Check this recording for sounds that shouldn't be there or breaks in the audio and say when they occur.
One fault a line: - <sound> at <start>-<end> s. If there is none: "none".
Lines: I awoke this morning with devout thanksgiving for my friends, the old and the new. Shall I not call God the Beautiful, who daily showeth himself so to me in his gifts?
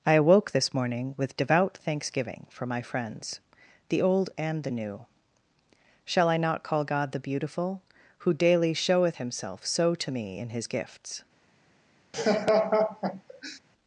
- laugh at 12.1-13.6 s